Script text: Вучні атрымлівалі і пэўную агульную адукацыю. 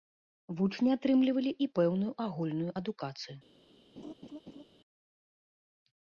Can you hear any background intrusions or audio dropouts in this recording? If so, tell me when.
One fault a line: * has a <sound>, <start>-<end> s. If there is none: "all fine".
* has a laugh, 4.0-4.6 s